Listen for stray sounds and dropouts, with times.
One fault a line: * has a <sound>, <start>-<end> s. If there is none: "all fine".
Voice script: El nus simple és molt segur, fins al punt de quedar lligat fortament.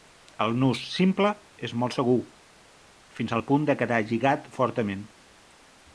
all fine